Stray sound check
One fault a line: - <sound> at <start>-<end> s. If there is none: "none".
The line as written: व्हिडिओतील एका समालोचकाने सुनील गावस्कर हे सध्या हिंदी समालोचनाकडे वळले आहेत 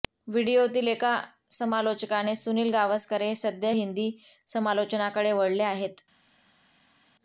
none